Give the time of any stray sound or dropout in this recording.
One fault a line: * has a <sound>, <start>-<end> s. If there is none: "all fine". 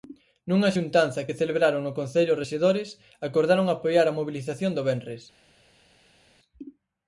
all fine